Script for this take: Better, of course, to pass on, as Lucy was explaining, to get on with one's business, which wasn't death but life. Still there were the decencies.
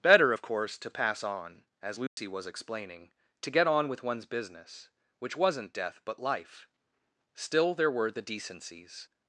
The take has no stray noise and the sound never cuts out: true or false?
false